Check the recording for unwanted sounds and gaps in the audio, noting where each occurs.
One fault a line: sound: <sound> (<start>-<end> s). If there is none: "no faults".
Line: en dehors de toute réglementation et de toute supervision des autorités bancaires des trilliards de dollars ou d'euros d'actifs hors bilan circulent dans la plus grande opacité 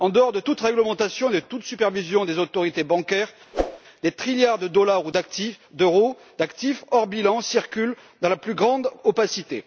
sound: whoosh (3.5-3.8 s)